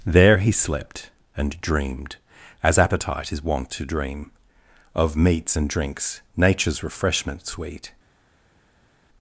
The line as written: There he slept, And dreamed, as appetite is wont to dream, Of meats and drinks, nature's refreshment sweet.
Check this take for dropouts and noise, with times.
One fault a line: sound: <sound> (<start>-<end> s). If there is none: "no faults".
no faults